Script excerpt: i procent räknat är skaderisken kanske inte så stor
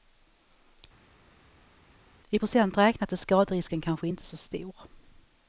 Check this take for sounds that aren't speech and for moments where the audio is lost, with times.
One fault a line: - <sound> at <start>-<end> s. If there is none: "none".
none